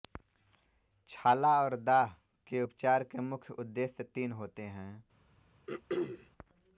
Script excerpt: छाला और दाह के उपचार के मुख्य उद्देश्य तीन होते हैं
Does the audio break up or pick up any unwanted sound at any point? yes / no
yes